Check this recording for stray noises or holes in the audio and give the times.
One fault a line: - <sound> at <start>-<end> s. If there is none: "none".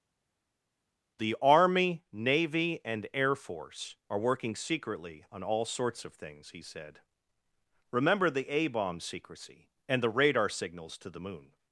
none